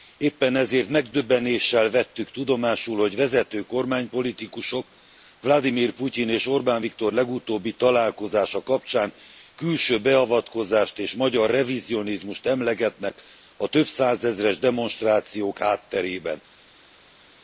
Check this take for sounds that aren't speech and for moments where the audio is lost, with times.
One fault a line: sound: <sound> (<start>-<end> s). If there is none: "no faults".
no faults